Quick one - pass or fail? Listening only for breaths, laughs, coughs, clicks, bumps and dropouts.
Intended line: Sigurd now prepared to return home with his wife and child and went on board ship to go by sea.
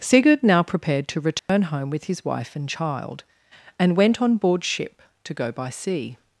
fail